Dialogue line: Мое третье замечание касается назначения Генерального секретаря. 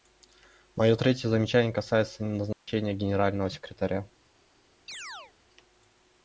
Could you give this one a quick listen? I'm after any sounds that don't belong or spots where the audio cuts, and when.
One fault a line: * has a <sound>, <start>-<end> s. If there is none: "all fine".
* has a dropout, 2.5-2.7 s
* has a chirp, 4.9-5.3 s